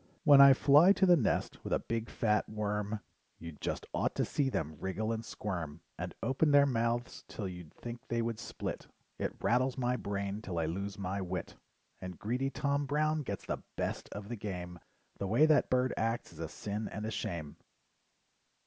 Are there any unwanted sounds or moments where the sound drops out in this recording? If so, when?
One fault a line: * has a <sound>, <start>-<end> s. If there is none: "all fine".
all fine